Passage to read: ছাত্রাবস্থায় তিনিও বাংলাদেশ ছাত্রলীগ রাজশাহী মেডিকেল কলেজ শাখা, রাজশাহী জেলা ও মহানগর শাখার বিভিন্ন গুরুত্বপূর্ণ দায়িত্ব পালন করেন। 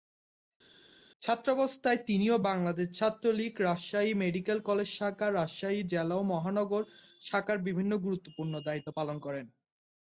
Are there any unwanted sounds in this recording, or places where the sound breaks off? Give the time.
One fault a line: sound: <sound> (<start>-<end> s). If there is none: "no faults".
no faults